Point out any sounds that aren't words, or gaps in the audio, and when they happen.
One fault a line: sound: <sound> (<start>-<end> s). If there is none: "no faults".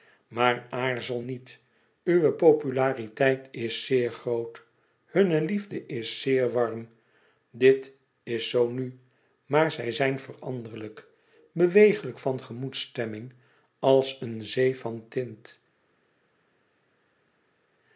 no faults